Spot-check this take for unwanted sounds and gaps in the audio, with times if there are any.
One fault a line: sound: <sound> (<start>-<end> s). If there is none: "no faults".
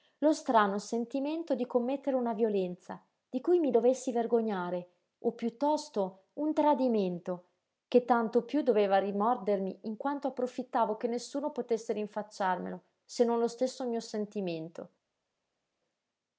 no faults